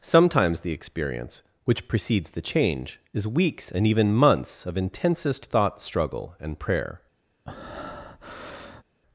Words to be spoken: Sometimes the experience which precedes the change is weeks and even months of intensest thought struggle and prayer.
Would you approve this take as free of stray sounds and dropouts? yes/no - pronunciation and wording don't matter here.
no